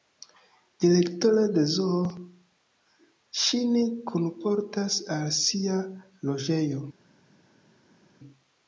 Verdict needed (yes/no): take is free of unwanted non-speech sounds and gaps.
yes